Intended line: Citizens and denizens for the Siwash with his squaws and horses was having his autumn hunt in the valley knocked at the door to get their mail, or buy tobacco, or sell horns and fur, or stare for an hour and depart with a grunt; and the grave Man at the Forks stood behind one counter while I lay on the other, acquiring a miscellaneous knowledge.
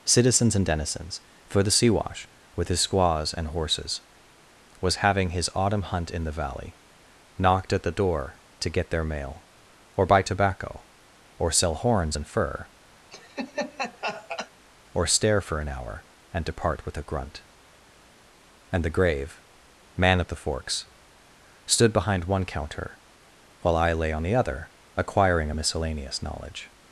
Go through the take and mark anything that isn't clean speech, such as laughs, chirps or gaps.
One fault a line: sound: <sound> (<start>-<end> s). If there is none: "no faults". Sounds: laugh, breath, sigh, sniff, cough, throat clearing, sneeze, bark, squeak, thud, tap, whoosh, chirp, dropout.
sound: laugh (13.1-14.5 s)